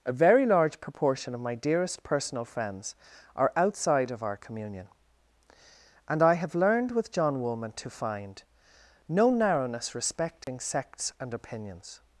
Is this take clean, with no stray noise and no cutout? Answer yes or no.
no